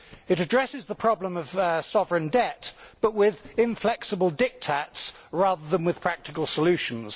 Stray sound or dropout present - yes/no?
no